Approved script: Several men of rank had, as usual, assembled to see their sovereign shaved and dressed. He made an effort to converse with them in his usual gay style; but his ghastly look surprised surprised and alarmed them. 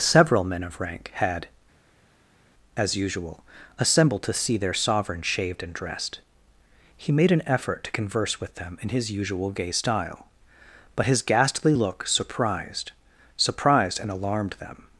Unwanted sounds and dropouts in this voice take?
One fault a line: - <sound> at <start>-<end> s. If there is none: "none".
none